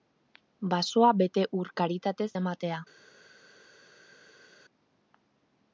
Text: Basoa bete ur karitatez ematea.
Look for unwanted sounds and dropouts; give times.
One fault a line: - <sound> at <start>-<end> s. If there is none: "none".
none